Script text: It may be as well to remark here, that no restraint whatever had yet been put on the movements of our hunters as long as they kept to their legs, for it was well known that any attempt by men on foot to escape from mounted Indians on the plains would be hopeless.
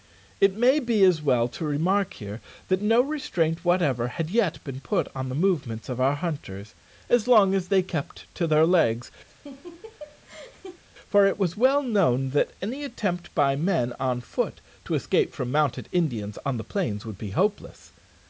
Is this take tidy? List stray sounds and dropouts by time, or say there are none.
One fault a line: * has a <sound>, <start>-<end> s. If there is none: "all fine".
* has a laugh, 9.3-10.8 s